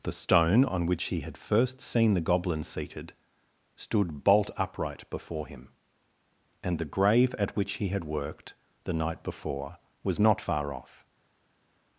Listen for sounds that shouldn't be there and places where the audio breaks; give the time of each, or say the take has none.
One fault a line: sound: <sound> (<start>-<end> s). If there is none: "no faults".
no faults